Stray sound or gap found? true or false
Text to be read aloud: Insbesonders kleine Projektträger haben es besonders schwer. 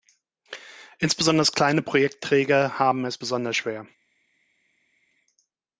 false